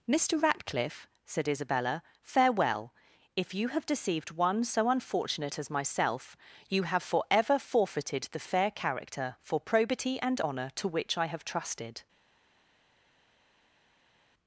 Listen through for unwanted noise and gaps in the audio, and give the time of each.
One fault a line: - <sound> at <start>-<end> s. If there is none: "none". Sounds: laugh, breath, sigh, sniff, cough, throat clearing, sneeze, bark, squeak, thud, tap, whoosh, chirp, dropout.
none